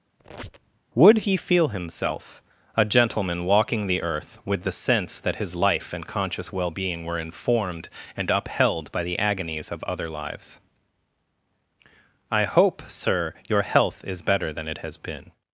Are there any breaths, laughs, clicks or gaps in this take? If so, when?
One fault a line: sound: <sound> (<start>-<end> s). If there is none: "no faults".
sound: squeak (0.2-0.8 s)